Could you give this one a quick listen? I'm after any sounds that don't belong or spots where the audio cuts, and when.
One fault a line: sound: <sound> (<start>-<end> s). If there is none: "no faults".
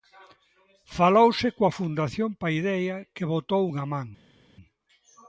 no faults